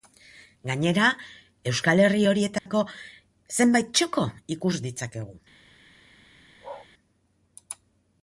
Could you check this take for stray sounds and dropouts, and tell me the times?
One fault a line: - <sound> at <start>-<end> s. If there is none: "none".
- dropout at 2.6-2.7 s
- bark at 6.6-6.9 s